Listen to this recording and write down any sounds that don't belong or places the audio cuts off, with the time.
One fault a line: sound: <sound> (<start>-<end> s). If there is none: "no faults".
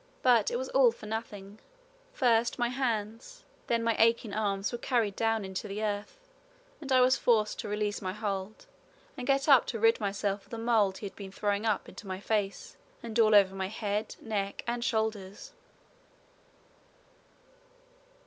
no faults